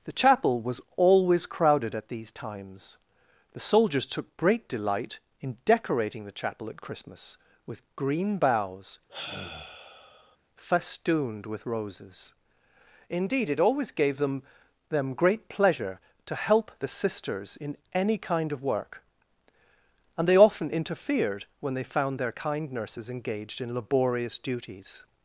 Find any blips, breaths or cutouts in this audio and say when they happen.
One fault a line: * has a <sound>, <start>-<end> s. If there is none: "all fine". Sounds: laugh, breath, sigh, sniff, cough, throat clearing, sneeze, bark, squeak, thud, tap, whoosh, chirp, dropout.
* has a sigh, 9.1-10.4 s